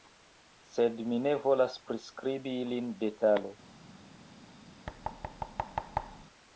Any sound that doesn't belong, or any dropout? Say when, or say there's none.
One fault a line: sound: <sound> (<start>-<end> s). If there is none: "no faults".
sound: thud (4.9-6.2 s)